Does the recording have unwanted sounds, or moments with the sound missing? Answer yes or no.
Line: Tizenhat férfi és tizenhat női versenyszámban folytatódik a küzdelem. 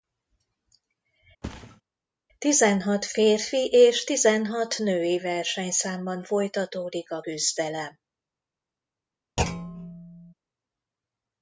yes